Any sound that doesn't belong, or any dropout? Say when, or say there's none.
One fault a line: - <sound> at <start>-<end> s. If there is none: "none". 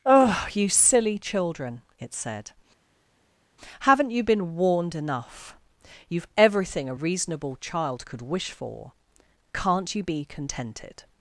none